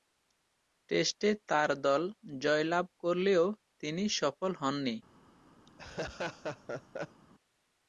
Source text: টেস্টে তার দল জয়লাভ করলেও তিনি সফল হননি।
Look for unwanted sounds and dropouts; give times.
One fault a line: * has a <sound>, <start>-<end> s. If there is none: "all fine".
* has a laugh, 5.7-7.2 s